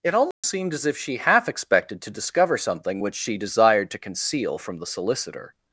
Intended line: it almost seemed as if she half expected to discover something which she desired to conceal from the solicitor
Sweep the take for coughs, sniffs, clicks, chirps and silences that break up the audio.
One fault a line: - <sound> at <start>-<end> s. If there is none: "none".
- dropout at 0.3-0.4 s